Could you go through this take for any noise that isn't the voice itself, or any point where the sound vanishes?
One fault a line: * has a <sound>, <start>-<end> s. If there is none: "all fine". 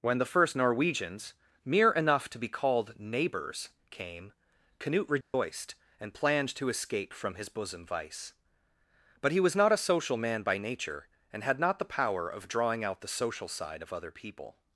* has a dropout, 5.2-5.3 s